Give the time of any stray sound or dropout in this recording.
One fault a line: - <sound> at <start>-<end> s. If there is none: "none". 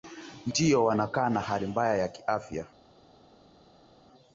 none